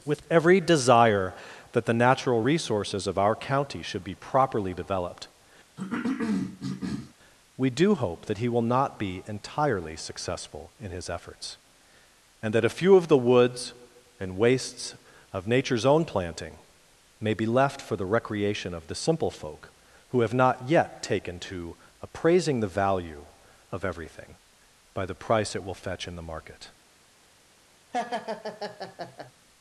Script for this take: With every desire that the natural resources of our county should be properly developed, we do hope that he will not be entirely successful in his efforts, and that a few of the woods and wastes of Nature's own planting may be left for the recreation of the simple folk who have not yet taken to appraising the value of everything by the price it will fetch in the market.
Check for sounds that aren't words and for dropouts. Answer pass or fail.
fail